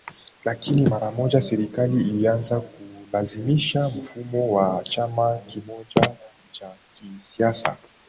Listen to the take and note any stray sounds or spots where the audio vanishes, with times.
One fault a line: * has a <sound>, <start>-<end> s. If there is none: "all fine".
all fine